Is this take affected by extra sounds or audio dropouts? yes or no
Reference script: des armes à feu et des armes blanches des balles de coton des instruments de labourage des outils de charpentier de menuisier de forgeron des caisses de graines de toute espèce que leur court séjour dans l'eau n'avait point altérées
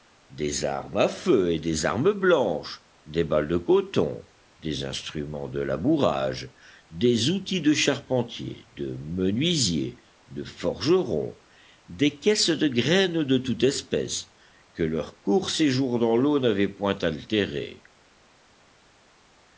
no